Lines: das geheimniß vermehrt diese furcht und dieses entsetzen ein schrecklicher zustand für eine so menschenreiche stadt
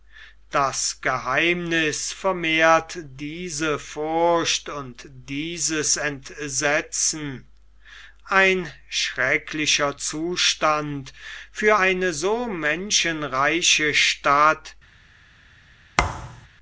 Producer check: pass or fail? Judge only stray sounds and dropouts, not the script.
fail